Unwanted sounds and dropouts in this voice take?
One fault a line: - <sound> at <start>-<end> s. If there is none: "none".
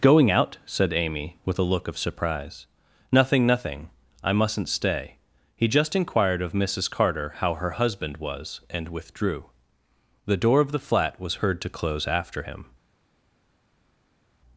none